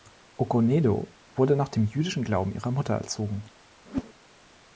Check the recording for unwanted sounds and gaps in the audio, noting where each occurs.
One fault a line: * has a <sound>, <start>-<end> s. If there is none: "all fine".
* has a whoosh, 3.9-4.1 s